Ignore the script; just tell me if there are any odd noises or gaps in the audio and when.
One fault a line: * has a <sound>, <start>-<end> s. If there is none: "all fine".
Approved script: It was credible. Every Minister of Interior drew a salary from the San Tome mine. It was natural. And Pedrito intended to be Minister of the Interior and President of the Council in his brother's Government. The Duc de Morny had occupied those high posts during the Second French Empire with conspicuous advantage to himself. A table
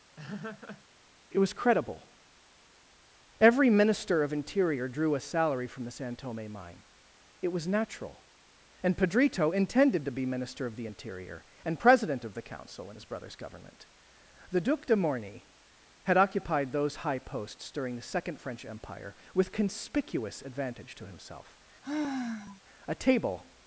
* has a laugh, 0.2-0.8 s
* has a sigh, 21.8-22.6 s